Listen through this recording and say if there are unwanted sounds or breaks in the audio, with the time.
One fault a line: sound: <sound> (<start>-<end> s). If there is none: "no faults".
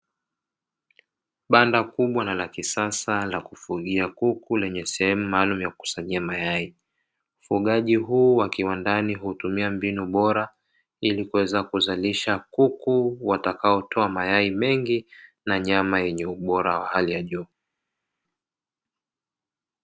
no faults